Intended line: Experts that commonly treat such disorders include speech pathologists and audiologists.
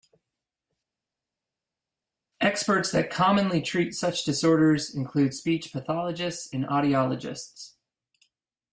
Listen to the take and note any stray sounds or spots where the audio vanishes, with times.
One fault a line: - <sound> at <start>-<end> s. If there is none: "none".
none